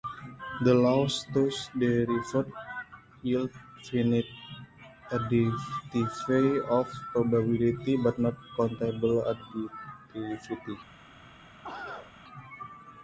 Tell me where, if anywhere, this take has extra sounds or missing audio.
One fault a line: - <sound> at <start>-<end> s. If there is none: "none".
- cough at 11.6-12.1 s